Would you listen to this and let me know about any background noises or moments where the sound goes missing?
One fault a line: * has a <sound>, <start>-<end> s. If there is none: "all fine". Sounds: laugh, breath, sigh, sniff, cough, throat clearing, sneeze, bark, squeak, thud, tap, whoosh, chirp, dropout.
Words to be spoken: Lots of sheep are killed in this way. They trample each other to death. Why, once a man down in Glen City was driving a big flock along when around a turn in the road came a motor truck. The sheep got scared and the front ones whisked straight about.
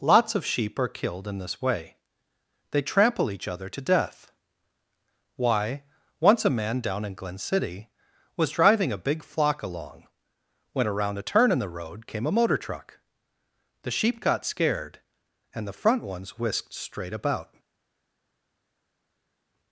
all fine